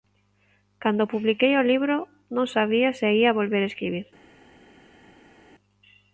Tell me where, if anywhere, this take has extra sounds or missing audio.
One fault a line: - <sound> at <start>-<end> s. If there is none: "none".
none